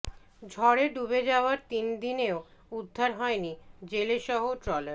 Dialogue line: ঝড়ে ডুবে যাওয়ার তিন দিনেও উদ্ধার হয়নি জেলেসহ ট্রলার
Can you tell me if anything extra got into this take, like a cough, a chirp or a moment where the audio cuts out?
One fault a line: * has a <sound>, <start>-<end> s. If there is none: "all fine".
all fine